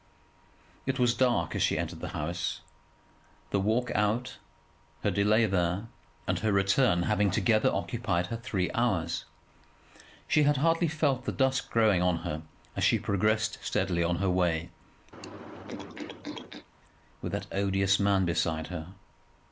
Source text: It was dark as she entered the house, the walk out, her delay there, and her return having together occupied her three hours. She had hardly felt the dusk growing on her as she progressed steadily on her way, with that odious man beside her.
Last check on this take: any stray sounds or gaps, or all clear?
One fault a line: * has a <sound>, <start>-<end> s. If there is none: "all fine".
* has a throat clearing, 15.1-16.7 s